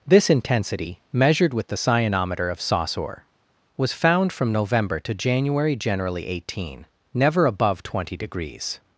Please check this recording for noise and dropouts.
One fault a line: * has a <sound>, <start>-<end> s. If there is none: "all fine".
all fine